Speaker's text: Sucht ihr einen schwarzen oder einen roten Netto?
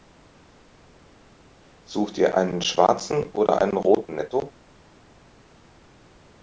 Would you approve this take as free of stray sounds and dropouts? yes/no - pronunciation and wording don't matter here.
yes